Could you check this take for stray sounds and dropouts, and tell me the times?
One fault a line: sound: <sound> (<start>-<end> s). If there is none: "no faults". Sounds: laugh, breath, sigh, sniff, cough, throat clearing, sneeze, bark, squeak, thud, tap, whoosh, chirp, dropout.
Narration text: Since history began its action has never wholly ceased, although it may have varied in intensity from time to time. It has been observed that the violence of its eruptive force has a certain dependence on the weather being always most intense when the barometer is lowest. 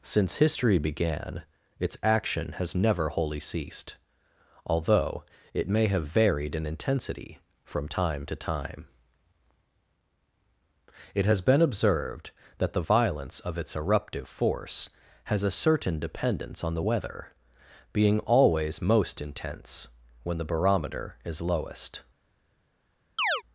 sound: chirp (23.2-23.4 s)